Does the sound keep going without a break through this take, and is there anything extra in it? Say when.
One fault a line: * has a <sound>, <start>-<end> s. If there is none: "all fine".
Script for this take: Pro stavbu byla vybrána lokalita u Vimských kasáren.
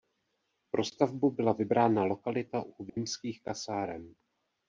* has a dropout, 2.9-3.0 s